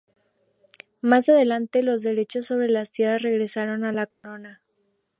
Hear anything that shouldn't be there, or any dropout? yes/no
yes